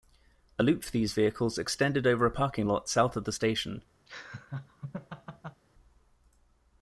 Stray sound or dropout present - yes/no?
yes